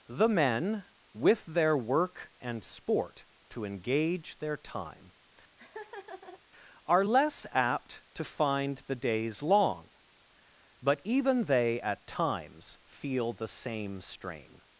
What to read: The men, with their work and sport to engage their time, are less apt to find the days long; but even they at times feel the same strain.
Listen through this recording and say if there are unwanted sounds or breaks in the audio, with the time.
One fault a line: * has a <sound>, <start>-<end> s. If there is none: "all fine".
* has a laugh, 5.6-6.4 s